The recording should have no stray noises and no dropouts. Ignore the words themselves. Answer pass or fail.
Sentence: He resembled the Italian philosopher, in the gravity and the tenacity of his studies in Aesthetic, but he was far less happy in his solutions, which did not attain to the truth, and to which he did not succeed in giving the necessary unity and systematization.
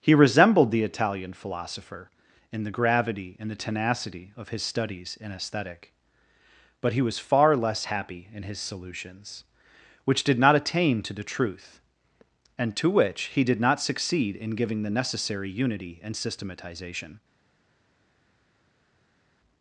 pass